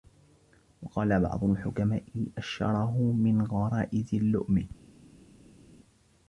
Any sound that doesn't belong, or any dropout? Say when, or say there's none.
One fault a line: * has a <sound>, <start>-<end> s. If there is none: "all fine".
all fine